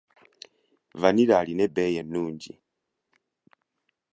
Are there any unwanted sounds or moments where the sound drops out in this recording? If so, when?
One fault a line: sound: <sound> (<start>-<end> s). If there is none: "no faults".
no faults